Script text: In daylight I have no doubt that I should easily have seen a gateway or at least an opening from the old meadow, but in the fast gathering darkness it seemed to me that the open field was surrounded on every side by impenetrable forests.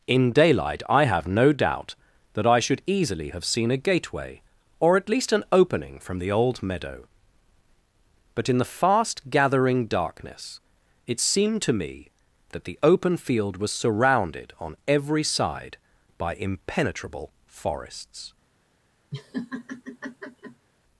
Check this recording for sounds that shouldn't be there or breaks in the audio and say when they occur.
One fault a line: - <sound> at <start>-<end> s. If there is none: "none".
- laugh at 19.1-20.7 s